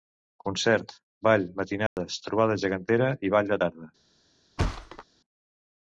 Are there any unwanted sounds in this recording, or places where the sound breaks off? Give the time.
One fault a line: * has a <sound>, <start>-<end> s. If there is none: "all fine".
* has a dropout, 1.9-2.0 s
* has a thud, 4.6-5.0 s